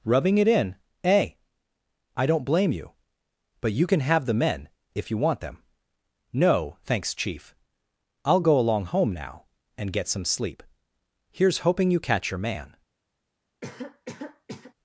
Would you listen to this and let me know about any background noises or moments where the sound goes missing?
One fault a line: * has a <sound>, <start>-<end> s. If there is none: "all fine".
* has a cough, 13.6-14.7 s